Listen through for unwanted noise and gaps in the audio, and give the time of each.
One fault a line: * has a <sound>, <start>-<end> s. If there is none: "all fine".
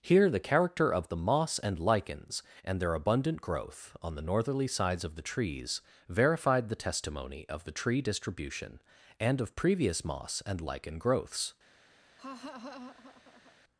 * has a laugh, 12.2-13.6 s